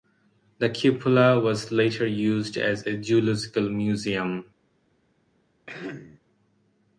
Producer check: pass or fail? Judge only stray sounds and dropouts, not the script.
fail